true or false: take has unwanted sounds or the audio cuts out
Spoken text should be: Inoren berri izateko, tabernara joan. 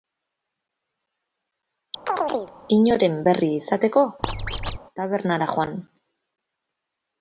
true